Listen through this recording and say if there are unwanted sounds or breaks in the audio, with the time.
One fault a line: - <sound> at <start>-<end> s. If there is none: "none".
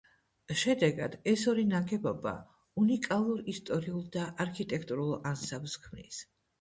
none